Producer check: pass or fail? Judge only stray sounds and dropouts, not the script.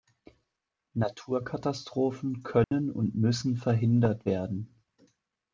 fail